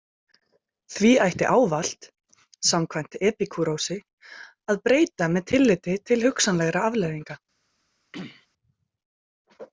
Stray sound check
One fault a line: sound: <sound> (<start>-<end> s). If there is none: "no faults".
sound: throat clearing (8.1-8.5 s)